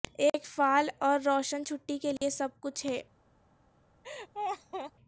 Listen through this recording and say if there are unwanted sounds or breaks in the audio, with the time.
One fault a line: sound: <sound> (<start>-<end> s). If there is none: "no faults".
sound: dropout (2.2-2.2 s)
sound: laugh (4.0-4.9 s)